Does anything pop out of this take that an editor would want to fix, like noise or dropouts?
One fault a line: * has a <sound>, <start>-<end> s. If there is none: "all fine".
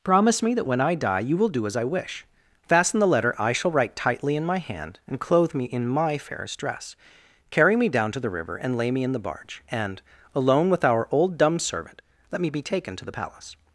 all fine